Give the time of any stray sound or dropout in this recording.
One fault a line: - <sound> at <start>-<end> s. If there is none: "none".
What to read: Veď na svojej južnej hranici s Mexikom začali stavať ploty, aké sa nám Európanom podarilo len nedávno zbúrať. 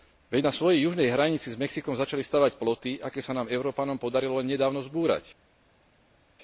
none